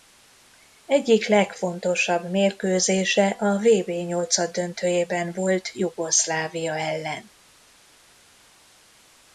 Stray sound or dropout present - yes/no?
no